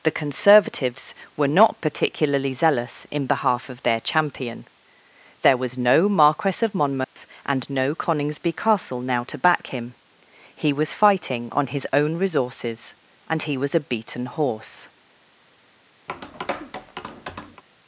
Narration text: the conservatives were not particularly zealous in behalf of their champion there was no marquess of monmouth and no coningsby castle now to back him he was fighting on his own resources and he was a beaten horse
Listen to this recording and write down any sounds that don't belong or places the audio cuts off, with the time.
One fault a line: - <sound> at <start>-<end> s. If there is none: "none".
- dropout at 7.0-7.2 s
- tap at 16.1-17.6 s